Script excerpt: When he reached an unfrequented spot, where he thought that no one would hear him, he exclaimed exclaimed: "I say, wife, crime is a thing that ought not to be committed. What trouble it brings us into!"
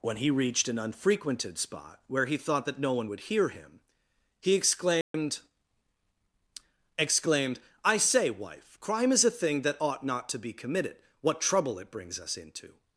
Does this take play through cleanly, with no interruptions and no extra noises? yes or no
no